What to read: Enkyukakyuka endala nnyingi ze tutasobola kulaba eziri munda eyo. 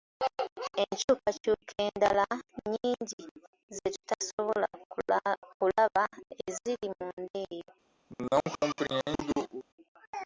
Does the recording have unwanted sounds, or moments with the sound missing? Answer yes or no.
yes